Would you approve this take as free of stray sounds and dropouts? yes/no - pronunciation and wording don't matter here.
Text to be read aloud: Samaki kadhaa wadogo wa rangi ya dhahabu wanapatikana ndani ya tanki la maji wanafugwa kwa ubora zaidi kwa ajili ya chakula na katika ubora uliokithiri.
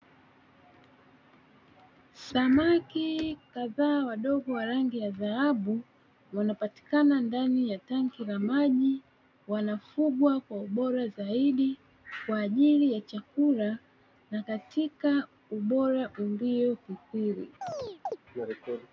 no